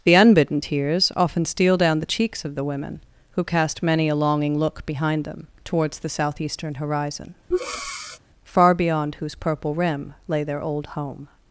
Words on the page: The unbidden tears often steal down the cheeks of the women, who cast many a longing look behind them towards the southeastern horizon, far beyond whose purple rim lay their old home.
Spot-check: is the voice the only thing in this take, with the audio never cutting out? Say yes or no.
no